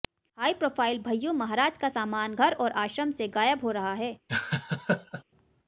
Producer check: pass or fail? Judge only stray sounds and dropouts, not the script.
fail